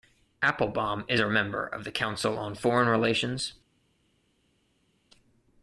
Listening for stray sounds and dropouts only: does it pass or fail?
pass